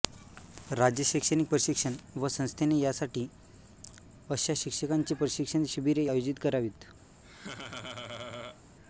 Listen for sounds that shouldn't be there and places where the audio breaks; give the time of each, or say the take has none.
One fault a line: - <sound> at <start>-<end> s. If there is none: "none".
- laugh at 7.2-8.6 s